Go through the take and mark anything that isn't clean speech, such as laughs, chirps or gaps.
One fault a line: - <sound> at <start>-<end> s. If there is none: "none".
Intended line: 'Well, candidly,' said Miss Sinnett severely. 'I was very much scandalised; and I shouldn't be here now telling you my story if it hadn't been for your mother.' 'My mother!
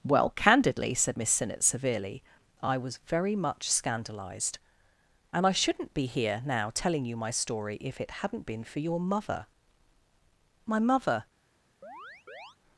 - chirp at 11.8-12.6 s